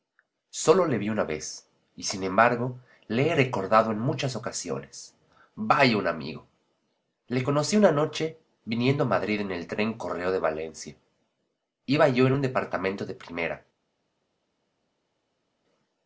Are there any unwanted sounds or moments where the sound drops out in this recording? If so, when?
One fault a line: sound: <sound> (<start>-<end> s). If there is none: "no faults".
no faults